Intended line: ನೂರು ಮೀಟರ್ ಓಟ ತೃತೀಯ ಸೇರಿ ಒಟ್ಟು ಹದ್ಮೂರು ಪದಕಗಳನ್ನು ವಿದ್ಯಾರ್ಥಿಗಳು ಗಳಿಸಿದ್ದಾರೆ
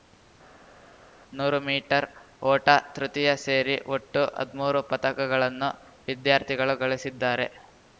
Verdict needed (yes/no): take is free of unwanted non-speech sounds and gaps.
yes